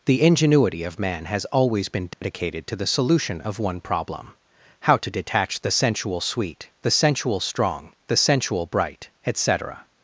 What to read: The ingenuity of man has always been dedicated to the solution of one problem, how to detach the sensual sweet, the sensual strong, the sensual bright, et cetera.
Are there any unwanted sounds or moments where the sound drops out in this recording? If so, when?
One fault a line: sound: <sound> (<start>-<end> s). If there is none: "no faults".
sound: dropout (2.1-2.2 s)